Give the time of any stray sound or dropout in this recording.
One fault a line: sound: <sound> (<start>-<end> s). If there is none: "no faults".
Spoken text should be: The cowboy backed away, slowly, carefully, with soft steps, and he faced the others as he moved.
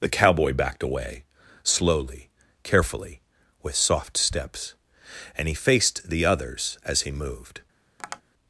sound: tap (8.0-8.2 s)